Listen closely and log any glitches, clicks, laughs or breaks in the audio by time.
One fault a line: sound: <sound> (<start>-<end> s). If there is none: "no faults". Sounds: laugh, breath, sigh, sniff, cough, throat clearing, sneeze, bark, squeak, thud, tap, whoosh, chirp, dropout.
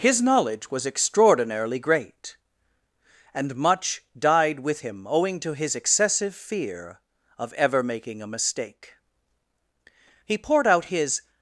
no faults